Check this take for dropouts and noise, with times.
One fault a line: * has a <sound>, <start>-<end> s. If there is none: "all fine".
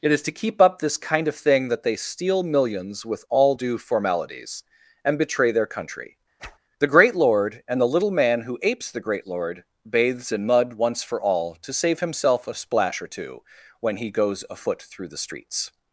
* has a whoosh, 6.4-6.6 s